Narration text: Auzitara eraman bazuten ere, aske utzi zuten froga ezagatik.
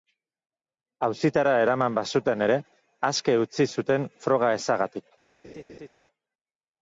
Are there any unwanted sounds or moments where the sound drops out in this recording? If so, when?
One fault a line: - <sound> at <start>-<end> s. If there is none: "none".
- laugh at 5.4-5.9 s